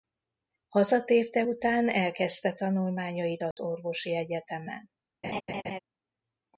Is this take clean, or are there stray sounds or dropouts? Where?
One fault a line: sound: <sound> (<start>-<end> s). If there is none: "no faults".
sound: dropout (3.5-3.6 s)
sound: laugh (5.2-5.8 s)